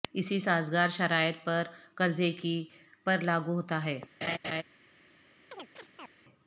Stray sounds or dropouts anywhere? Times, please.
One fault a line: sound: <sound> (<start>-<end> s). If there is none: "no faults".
sound: laugh (4.2-4.6 s)
sound: chirp (5.5-6.1 s)